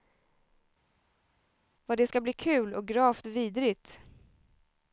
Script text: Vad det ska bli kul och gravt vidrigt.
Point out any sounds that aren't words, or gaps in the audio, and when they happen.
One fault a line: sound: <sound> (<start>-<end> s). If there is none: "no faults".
no faults